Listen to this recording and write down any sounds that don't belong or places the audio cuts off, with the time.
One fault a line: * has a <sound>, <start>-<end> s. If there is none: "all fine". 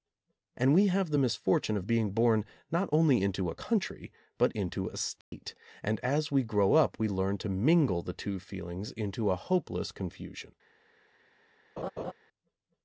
* has a dropout, 5.2-5.3 s
* has a laugh, 11.8-12.1 s